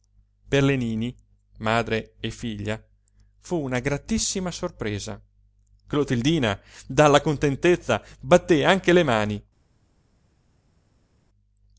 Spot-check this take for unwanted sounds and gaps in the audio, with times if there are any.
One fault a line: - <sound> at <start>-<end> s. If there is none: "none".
none